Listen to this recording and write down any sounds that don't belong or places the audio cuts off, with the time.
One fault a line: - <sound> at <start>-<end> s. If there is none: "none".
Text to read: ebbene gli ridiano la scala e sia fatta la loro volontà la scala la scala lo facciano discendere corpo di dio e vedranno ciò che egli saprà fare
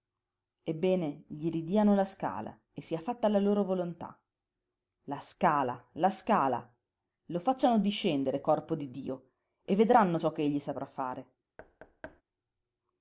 - thud at 11.6-12.2 s